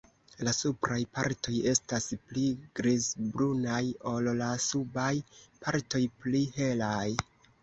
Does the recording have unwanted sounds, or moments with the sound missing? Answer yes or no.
no